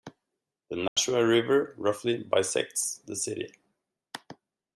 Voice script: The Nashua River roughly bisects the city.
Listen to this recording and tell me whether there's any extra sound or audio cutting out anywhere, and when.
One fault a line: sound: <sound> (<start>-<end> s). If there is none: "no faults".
sound: dropout (0.9-1.0 s)